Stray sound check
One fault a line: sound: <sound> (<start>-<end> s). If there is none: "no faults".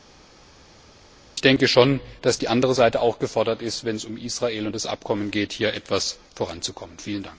no faults